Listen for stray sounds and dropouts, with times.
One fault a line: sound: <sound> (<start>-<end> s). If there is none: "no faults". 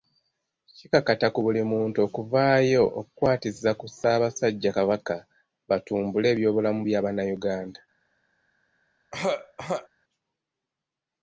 sound: throat clearing (9.1-9.9 s)